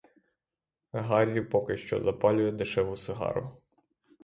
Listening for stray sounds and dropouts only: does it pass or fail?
pass